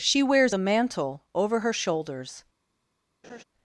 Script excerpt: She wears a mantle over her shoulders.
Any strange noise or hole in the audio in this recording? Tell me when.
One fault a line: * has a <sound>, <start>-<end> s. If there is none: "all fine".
* has a laugh, 3.2-3.4 s